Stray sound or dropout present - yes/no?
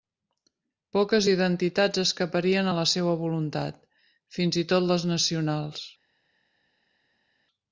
no